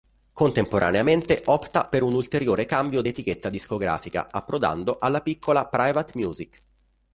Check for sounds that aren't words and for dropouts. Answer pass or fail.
pass